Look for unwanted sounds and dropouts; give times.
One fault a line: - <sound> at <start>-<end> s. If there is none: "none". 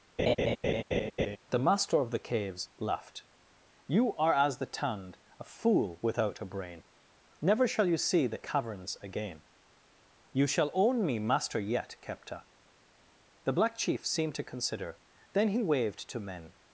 - laugh at 0.2-1.4 s